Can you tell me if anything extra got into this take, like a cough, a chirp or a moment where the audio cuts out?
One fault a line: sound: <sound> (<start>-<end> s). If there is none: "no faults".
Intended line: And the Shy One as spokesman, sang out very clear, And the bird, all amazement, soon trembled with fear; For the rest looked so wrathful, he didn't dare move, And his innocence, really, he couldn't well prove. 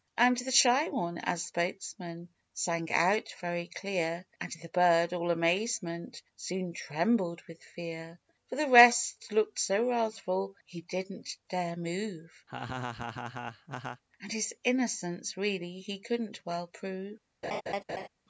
sound: laugh (12.5-14.0 s)
sound: laugh (17.4-18.1 s)